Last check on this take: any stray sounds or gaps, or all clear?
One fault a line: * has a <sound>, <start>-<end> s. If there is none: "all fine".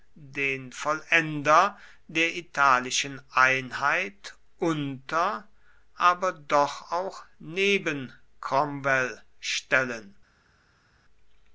all fine